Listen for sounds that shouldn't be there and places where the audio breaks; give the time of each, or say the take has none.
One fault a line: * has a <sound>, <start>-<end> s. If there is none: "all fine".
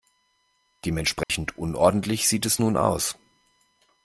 * has a dropout, 1.2-1.3 s